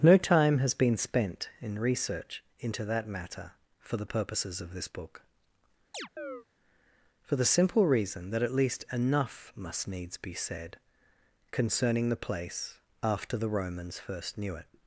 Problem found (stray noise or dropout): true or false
true